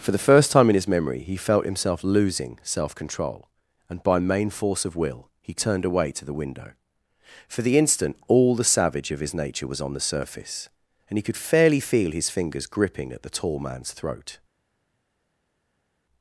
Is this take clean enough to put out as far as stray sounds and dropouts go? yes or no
yes